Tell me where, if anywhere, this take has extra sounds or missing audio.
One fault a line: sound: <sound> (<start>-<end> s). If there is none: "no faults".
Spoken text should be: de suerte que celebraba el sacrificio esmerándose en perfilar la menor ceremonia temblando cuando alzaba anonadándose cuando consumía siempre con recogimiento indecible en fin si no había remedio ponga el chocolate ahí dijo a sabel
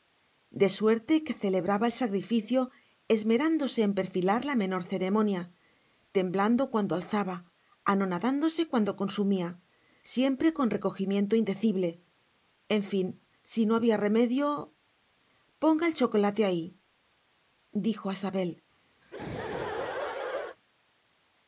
sound: laugh (19.0-20.6 s)